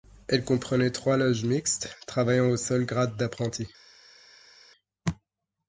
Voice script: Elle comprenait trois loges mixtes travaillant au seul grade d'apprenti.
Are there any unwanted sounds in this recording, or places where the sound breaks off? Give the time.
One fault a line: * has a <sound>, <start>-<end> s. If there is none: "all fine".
all fine